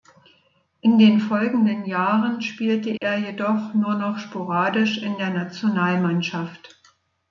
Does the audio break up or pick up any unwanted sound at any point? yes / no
yes